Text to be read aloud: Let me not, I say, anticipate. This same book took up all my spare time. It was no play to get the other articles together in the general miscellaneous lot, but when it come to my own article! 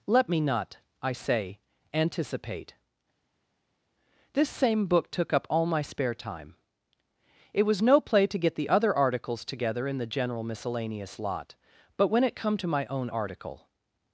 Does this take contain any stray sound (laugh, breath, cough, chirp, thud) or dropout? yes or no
no